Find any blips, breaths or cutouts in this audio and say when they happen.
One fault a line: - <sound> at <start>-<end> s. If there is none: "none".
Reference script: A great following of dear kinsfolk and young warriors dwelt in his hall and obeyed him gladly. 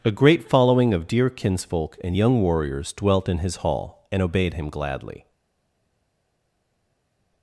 none